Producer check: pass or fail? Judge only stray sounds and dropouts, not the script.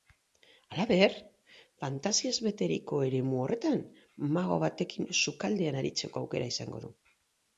pass